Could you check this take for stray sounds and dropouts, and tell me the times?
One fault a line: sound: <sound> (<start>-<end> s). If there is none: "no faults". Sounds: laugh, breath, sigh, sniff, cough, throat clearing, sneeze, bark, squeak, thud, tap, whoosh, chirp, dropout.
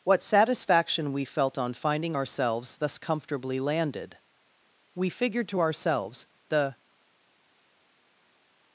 no faults